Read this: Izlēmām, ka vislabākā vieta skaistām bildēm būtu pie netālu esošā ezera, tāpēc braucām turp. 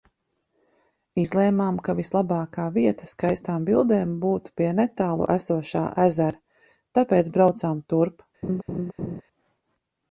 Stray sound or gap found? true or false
true